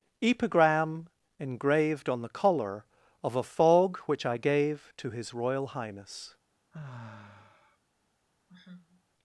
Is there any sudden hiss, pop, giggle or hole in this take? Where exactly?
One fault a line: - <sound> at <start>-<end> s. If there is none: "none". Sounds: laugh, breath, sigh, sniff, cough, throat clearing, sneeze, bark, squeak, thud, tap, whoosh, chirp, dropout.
- sigh at 6.7-7.8 s
- sigh at 8.5-9.0 s